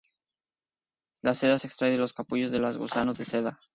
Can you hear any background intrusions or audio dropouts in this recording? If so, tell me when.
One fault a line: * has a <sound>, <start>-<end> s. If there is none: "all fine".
all fine